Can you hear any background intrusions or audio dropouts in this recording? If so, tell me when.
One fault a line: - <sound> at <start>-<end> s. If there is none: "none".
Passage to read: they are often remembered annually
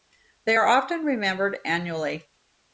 none